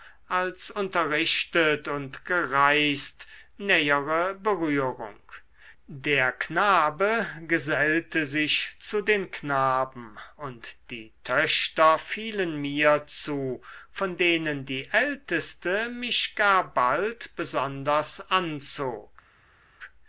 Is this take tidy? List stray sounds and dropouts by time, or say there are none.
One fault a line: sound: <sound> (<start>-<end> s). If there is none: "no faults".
no faults